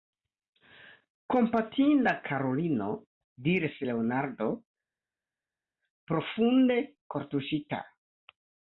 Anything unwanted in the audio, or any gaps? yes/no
no